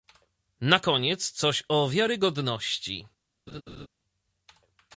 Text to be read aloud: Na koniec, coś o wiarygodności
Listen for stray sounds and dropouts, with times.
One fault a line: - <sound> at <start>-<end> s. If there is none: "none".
- laugh at 3.5-3.9 s